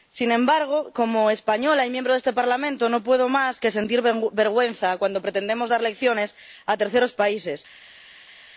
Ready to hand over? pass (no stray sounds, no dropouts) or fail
pass